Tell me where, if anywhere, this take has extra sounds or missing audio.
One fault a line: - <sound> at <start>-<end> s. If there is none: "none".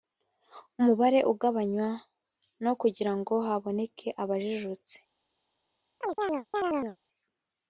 - chirp at 6.0-7.0 s